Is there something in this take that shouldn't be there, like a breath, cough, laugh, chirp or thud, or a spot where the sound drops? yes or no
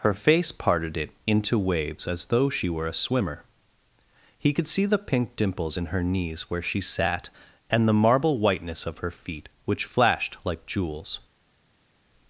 no